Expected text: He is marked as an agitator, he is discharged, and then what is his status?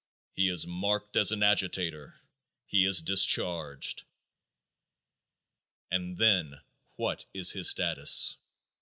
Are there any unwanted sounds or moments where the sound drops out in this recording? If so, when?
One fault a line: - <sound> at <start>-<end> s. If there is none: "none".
none